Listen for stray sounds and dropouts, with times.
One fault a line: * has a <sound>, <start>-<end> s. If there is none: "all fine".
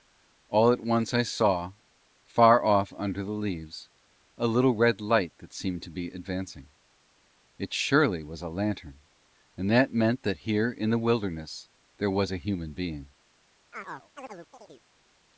* has a chirp, 13.7-14.9 s